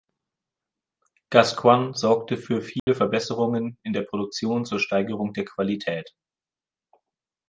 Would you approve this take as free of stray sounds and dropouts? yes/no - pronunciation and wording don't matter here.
no